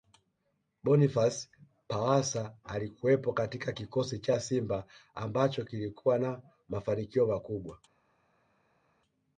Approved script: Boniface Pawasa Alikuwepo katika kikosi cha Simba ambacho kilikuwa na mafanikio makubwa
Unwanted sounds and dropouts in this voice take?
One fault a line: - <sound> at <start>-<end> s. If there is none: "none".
none